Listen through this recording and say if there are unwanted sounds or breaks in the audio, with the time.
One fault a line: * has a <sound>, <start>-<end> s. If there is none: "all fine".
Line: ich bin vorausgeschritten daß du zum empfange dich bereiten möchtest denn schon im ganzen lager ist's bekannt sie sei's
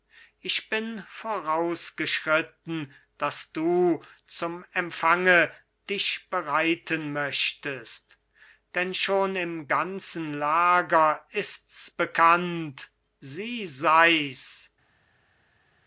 all fine